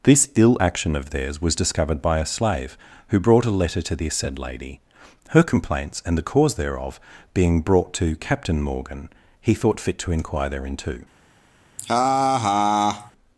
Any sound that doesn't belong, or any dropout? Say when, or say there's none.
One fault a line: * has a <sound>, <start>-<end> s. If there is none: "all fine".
* has a laugh, 11.8-13.1 s